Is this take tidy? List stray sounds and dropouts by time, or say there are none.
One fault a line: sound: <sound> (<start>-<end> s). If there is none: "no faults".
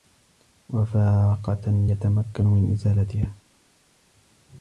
no faults